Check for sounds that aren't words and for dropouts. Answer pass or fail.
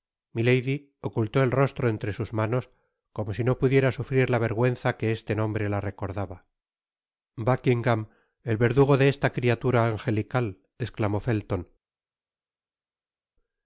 pass